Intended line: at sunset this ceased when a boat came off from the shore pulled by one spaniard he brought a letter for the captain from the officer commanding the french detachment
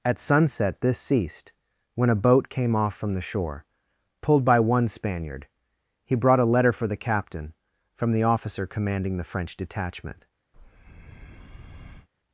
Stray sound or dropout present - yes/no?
yes